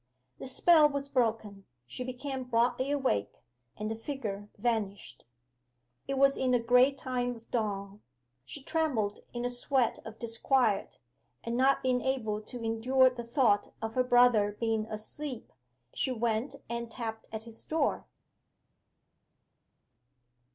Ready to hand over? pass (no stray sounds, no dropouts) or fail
pass